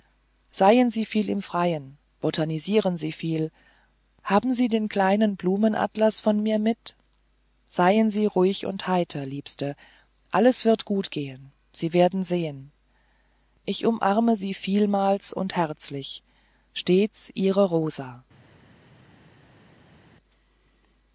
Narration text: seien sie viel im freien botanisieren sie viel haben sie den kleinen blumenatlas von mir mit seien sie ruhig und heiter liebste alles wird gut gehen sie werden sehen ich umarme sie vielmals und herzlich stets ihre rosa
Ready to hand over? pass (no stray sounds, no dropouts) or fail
pass